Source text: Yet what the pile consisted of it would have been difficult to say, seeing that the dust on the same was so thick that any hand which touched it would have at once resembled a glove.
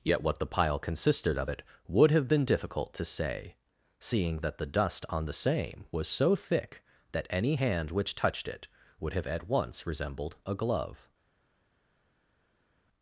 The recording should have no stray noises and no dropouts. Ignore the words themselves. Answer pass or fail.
pass